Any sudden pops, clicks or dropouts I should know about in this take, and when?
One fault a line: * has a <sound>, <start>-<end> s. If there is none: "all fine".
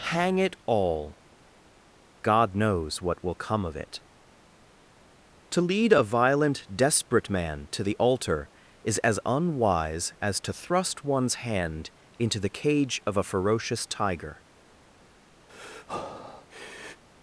* has a breath, 15.5-17.0 s